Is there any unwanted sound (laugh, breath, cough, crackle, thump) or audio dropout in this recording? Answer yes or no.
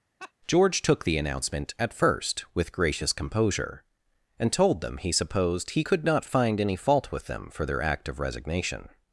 yes